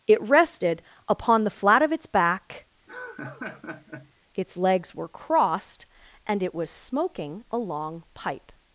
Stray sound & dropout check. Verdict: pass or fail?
fail